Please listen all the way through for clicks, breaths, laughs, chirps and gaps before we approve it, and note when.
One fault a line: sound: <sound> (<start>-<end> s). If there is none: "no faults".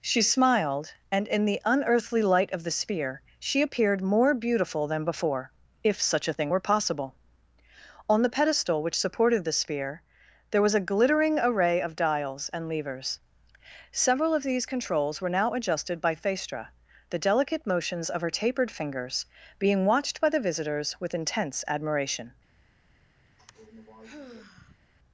sound: sigh (23.3-24.8 s)